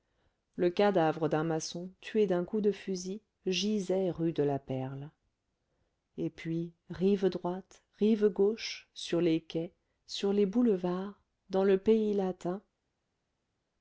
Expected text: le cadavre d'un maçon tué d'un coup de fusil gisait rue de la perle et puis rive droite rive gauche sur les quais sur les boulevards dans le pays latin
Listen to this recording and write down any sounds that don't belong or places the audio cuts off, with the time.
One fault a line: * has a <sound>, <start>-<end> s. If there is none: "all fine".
all fine